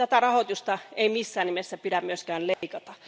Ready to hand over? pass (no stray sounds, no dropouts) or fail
fail